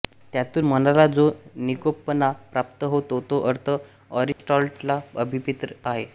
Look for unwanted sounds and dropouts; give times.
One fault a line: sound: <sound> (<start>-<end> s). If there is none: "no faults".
sound: dropout (4.3-4.4 s)